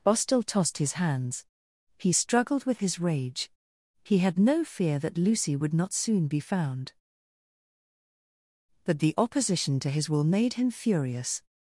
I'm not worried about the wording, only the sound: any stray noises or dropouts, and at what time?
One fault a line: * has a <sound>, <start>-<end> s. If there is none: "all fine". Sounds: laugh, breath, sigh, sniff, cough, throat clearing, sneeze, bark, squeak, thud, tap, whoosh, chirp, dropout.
all fine